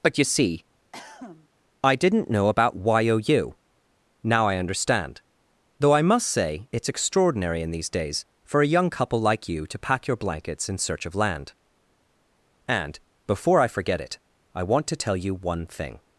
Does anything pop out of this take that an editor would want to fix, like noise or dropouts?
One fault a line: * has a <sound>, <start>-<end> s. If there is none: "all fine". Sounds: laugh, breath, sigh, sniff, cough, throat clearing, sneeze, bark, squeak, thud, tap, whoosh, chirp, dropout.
* has a cough, 0.9-1.5 s